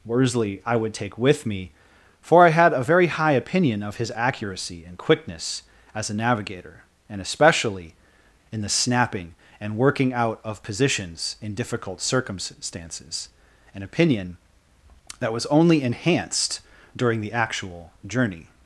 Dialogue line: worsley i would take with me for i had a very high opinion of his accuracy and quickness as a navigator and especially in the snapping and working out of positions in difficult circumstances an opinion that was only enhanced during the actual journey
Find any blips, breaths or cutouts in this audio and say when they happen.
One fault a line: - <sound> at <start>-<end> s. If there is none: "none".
none